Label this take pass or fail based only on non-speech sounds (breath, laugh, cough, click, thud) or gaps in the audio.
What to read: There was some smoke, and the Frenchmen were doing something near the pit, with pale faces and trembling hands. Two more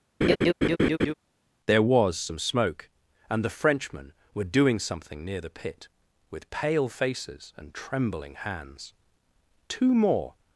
fail